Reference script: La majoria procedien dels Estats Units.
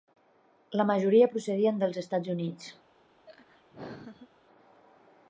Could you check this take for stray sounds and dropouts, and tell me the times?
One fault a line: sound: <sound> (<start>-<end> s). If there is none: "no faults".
sound: laugh (3.3-4.3 s)